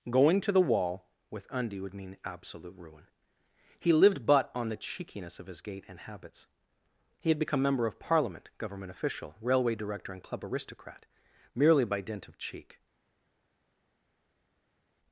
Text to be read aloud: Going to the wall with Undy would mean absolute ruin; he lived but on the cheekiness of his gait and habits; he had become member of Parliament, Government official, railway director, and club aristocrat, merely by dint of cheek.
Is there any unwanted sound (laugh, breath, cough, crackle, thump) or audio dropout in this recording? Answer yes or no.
no